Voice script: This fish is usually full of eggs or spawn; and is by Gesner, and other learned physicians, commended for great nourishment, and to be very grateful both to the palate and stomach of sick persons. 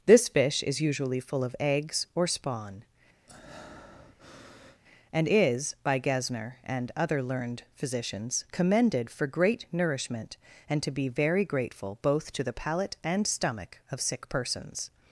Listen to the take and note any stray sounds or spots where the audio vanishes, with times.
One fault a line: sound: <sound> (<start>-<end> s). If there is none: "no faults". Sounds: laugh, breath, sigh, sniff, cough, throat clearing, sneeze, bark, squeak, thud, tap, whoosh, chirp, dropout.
sound: breath (3.3-4.8 s)